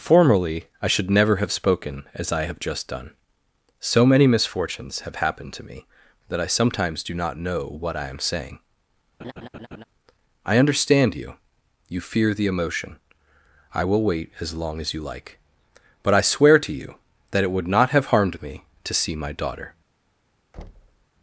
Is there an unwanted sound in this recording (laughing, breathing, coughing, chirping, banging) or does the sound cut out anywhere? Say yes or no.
yes